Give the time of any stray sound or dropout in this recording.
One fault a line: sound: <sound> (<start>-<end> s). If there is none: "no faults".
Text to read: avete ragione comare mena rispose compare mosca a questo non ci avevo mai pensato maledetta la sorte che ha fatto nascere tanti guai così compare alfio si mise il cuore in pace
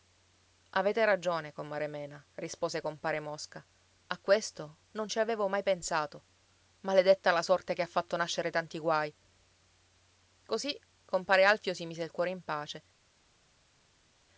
no faults